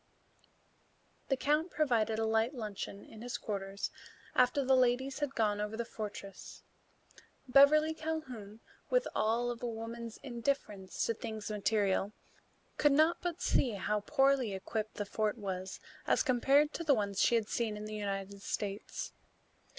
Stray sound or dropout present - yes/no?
no